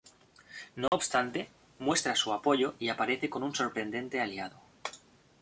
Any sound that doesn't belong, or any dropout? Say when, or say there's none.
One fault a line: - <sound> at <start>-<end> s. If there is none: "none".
- dropout at 0.9-0.9 s